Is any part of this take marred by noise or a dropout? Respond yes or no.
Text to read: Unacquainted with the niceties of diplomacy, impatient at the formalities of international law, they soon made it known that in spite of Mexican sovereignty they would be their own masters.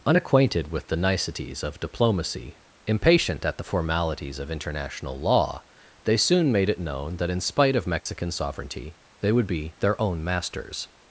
yes